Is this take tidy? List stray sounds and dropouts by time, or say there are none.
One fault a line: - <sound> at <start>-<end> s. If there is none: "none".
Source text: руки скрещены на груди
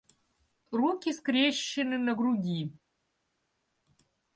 none